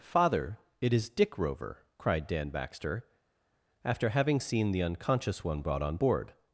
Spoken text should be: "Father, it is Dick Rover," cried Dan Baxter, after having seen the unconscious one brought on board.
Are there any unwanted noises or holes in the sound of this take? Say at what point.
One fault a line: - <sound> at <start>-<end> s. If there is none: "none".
none